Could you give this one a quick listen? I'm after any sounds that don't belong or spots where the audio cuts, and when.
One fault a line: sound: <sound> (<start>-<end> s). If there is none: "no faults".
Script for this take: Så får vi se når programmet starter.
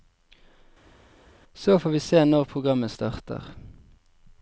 no faults